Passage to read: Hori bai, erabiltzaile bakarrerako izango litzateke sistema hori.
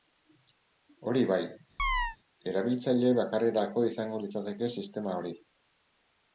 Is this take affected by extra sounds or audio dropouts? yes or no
yes